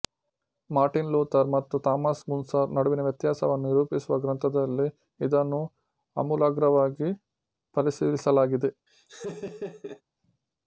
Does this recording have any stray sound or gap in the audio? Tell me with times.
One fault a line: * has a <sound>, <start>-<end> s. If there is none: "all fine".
* has a laugh, 8.9-10.0 s